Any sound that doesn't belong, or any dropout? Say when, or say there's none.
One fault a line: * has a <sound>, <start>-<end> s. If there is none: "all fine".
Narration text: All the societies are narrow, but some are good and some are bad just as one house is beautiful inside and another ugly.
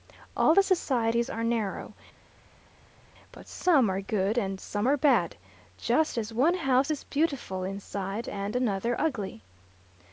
all fine